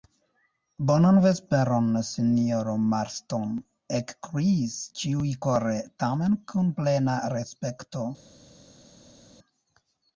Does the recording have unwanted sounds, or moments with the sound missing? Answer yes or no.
no